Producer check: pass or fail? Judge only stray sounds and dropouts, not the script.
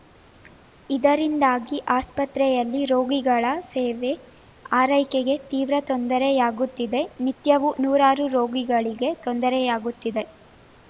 pass